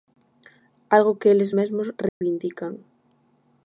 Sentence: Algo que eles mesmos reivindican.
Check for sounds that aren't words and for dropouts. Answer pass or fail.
fail